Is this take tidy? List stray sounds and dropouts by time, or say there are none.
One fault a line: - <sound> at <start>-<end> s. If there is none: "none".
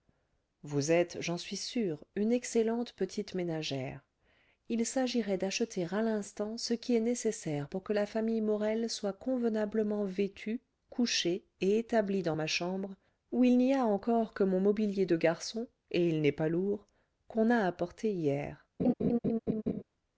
- laugh at 18.8-19.8 s